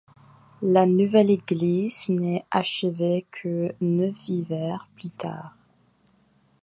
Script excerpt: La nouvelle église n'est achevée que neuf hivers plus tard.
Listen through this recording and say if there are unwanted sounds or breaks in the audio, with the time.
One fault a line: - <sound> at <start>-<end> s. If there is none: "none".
none